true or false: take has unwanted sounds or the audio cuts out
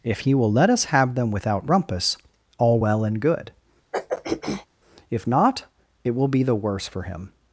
true